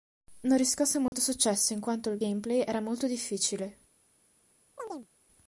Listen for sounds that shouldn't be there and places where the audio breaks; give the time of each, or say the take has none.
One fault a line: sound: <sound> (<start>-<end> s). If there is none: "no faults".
sound: dropout (1.1-1.1 s)
sound: chirp (4.8-5.1 s)